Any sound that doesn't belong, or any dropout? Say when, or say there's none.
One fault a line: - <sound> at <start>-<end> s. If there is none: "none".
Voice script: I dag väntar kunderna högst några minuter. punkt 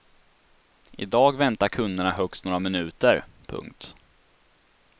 none